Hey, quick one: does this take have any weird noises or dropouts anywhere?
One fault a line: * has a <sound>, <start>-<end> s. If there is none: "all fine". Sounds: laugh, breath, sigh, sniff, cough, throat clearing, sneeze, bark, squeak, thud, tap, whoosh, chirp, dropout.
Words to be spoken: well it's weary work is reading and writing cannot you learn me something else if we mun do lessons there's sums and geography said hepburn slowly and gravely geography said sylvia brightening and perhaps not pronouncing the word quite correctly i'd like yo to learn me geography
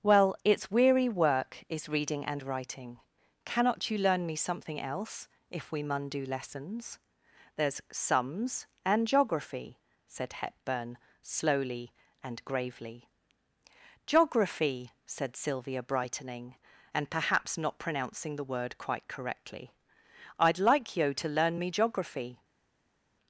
all fine